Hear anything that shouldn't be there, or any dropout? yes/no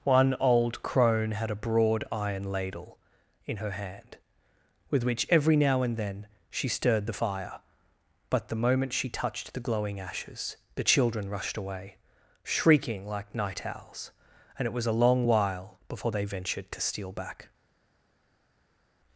no